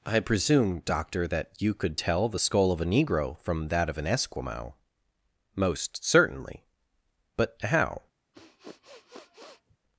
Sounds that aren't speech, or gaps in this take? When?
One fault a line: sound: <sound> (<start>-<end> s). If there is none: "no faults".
sound: sniff (8.3-9.8 s)